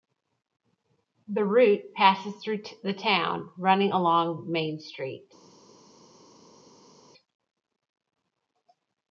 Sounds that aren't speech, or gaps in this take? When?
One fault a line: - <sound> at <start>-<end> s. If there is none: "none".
none